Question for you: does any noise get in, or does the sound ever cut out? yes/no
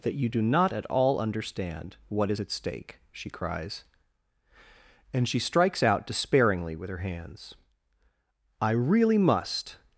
no